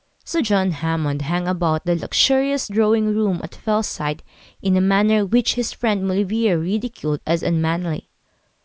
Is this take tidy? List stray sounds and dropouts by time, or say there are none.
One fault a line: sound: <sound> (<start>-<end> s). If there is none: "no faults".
no faults